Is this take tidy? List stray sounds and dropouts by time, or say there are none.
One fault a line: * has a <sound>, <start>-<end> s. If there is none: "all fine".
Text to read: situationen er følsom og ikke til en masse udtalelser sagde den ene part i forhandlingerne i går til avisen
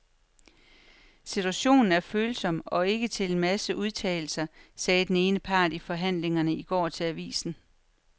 all fine